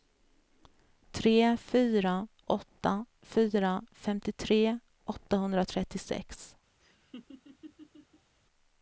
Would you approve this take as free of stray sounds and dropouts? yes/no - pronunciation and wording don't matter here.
no